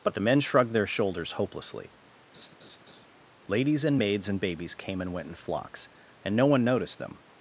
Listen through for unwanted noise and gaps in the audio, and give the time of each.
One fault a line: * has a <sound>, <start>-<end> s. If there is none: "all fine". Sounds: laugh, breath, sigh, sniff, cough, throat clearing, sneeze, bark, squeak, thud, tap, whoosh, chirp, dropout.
* has a laugh, 2.3-3.1 s